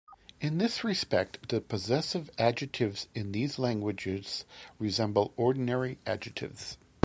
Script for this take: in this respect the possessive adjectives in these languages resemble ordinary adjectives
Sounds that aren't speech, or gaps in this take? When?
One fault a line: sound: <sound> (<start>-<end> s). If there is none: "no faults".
no faults